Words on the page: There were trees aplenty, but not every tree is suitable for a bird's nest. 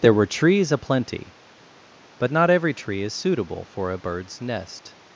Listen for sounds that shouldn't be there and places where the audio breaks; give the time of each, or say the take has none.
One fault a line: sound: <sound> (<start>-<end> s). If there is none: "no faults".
no faults